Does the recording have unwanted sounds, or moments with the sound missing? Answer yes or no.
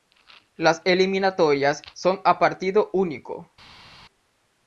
no